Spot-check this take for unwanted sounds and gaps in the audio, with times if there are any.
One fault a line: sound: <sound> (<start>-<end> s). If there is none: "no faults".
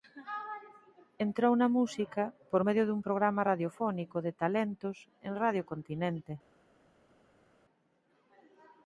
no faults